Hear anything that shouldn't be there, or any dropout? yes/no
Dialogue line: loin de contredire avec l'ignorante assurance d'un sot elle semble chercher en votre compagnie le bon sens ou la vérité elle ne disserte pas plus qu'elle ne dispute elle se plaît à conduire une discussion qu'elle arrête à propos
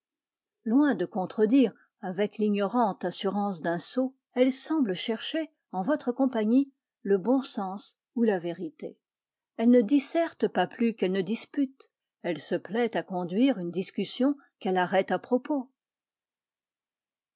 no